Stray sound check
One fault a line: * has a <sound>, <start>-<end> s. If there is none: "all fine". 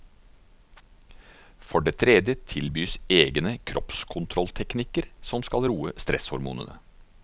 all fine